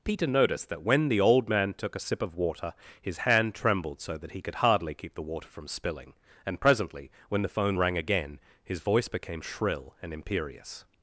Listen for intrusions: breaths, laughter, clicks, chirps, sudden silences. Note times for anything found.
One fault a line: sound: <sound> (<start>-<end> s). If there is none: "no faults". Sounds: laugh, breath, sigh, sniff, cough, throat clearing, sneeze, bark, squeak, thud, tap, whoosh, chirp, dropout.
no faults